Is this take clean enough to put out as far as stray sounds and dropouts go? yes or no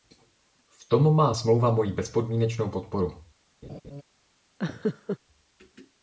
no